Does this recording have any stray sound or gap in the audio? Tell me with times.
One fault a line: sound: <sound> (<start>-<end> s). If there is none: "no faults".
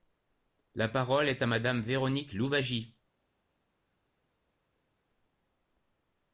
no faults